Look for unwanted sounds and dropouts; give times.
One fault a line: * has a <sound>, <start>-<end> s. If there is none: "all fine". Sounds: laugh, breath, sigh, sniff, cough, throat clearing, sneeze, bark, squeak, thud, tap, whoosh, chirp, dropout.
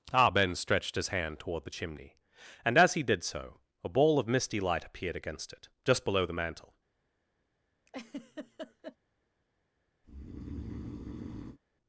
* has a laugh, 7.9-9.0 s
* has a breath, 10.0-11.6 s